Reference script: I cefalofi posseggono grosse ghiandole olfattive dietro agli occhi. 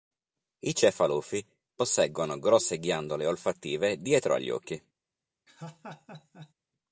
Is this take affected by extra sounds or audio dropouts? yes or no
yes